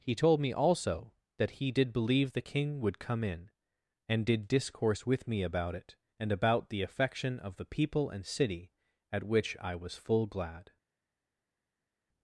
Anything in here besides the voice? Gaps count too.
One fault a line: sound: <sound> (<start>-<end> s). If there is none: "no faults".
no faults